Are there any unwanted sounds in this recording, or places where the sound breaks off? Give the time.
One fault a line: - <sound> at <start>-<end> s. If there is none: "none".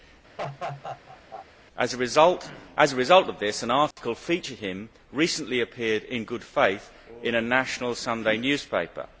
- laugh at 0.4-1.5 s
- dropout at 3.9-4.0 s